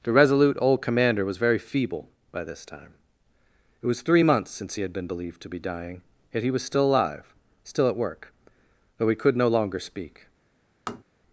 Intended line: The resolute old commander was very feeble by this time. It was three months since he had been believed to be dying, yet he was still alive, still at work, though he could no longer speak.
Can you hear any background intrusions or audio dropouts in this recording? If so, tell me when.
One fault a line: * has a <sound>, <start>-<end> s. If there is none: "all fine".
* has a tap, 10.9-11.0 s